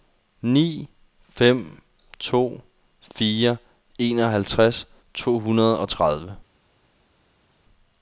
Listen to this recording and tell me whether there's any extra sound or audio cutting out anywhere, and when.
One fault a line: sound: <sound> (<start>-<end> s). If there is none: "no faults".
no faults